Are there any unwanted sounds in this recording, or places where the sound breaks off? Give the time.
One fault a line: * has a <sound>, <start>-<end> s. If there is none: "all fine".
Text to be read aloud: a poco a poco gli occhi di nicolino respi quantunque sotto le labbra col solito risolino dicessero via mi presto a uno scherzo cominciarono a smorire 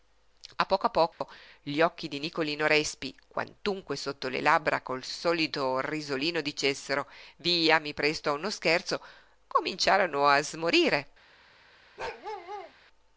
* has a dropout, 1.1-1.2 s
* has a bark, 12.0-12.7 s